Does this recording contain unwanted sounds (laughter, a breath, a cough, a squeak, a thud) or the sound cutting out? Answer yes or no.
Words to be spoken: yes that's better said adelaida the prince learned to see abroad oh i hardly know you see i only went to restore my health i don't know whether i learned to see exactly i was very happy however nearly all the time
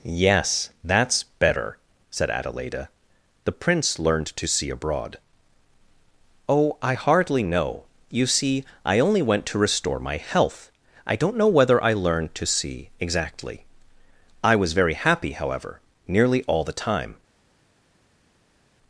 no